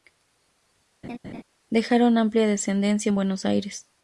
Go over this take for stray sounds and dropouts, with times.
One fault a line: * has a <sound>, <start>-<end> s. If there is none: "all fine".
* has a laugh, 1.0-1.4 s